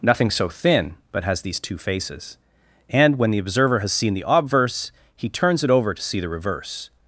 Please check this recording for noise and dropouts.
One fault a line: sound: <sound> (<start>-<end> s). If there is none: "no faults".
no faults